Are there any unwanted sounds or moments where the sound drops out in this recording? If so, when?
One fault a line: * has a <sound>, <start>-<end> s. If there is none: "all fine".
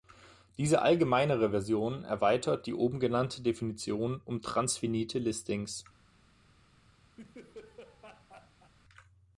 * has a laugh, 7.2-8.7 s